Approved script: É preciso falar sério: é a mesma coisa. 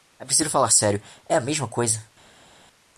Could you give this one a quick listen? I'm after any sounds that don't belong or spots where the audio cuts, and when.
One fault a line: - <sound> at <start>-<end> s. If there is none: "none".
none